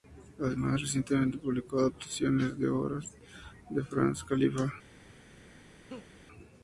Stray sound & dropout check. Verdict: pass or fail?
fail